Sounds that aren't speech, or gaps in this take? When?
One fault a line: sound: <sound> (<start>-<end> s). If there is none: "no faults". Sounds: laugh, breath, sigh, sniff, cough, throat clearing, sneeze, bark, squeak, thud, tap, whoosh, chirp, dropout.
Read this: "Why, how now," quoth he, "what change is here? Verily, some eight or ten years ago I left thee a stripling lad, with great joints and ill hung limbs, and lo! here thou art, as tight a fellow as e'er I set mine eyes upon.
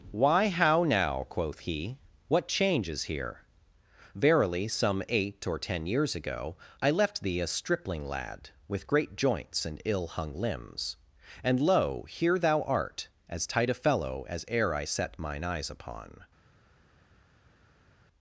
no faults